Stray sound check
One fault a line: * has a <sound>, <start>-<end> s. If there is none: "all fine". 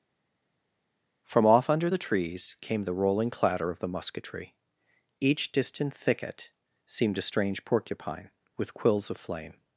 all fine